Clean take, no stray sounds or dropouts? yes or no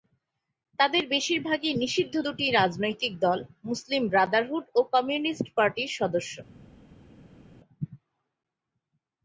yes